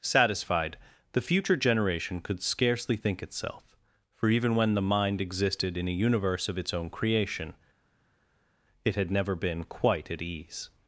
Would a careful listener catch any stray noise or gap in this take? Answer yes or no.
no